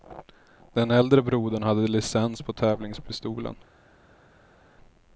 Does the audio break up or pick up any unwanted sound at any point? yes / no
no